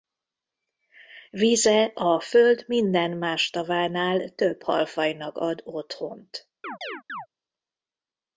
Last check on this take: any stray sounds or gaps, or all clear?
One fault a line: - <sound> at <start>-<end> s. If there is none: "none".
- chirp at 6.6-7.3 s